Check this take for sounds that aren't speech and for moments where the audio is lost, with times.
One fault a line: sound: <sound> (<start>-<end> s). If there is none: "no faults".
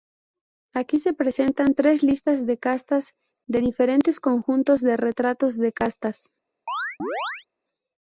sound: chirp (6.7-7.5 s)